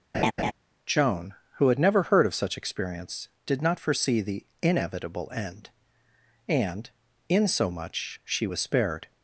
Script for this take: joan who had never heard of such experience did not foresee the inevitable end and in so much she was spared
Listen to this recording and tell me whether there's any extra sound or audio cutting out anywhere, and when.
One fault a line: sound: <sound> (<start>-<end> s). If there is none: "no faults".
sound: laugh (0.1-0.5 s)